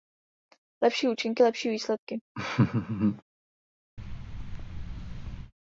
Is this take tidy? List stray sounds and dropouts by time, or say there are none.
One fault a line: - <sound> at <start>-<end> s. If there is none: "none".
- laugh at 2.3-3.2 s
- thud at 4.0-5.5 s